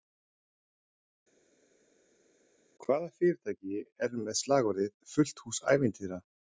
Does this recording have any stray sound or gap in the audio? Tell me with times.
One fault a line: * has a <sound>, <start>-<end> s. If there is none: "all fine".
all fine